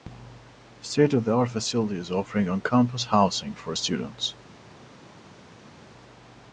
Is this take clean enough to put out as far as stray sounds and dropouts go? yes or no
yes